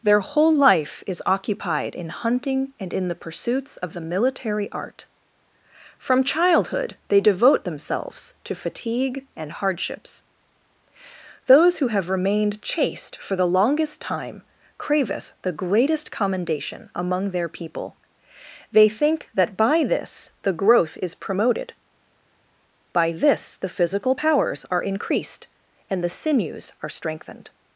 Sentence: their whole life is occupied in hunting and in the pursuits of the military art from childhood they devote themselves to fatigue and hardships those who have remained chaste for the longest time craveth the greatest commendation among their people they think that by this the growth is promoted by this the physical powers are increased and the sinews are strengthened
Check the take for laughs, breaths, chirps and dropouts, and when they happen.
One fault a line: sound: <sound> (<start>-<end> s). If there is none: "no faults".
no faults